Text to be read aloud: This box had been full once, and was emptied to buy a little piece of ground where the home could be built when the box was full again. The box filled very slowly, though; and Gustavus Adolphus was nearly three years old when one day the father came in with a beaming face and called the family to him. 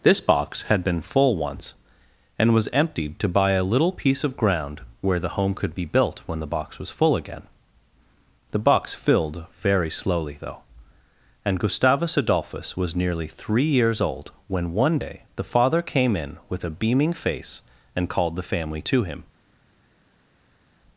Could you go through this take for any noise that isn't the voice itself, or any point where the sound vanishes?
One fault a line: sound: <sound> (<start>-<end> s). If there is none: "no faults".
no faults